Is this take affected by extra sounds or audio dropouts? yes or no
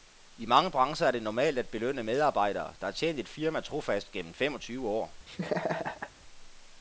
yes